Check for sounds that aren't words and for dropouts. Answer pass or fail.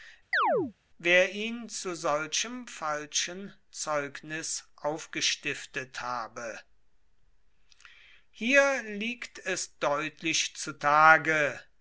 fail